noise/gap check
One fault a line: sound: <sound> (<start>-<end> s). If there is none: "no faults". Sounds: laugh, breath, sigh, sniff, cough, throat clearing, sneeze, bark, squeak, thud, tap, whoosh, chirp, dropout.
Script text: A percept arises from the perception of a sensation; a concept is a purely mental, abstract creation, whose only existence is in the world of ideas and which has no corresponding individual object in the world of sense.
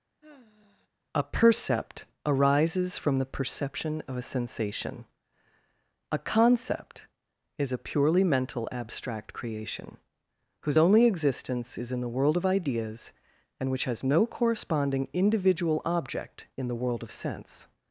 sound: sigh (0.2-0.9 s)